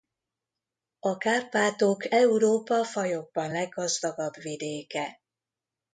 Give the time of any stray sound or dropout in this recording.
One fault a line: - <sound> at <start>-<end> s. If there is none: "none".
none